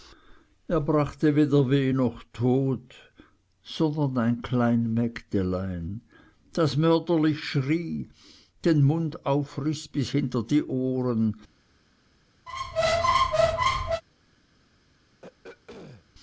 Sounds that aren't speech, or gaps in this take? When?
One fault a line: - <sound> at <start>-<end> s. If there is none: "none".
- squeak at 12.5-14.0 s
- throat clearing at 15.2-16.1 s